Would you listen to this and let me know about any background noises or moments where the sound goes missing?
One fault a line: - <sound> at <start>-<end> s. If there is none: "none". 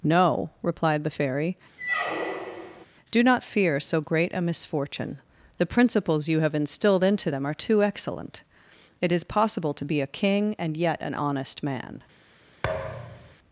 - squeak at 1.8-2.9 s
- thud at 12.6-13.4 s